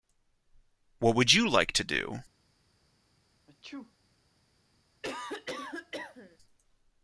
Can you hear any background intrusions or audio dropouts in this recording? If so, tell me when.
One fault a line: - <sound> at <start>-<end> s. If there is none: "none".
- sneeze at 3.5-3.9 s
- cough at 5.0-6.4 s